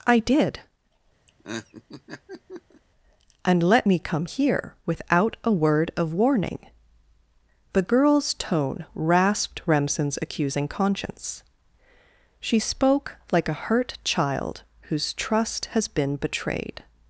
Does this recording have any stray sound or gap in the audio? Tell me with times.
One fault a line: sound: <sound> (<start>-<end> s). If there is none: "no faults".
sound: laugh (1.3-2.8 s)